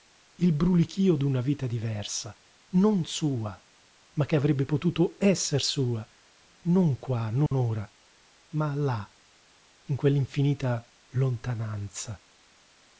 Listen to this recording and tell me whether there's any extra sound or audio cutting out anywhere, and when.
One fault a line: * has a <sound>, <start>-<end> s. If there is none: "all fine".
* has a dropout, 7.5-7.5 s